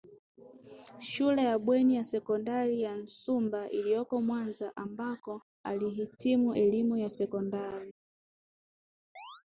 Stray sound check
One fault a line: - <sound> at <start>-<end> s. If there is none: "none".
- chirp at 9.2-9.4 s